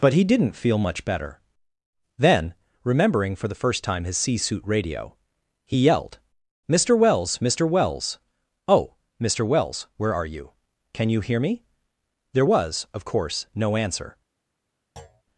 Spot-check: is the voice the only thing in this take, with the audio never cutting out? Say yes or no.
no